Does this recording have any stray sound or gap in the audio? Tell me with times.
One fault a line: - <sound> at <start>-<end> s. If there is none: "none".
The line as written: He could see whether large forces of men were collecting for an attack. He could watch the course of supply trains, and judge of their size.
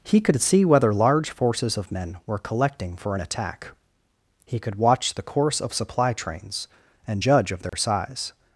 - dropout at 7.7-7.7 s